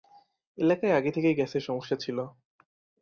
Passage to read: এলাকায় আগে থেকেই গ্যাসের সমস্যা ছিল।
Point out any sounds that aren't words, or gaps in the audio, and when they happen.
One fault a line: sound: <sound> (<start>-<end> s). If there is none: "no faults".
no faults